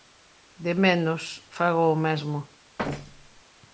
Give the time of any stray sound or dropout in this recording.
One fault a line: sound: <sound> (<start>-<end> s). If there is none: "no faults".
sound: thud (2.8-3.4 s)